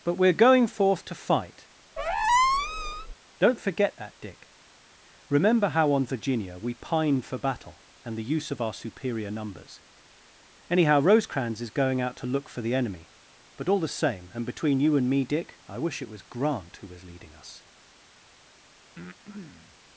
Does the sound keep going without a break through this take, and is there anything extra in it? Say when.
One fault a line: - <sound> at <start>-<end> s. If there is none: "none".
- squeak at 2.0-3.1 s
- breath at 19.0-19.8 s